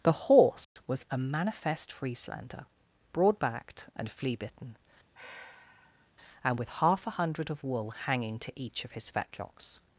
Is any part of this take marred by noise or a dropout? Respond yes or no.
yes